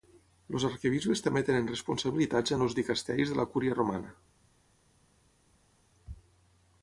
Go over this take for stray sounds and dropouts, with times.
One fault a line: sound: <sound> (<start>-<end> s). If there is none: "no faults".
no faults